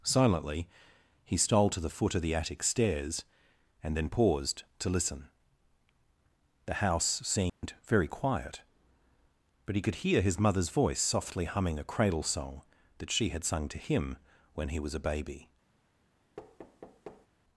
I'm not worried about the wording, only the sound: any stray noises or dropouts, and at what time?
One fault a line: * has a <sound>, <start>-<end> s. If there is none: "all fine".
* has a dropout, 7.5-7.6 s
* has a thud, 16.4-17.3 s